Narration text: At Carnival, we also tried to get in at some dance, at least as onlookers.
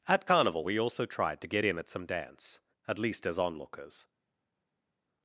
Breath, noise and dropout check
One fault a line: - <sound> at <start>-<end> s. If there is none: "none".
none